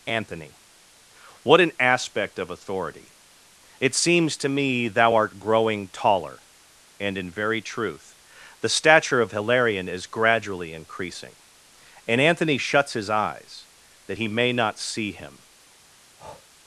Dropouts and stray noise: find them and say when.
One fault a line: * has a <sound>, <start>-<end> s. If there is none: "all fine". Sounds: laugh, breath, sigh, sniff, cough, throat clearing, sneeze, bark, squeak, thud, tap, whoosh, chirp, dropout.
* has a breath, 16.2-16.5 s